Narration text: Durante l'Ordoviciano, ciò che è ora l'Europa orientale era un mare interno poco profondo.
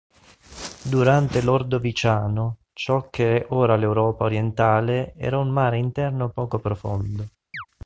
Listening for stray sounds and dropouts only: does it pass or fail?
fail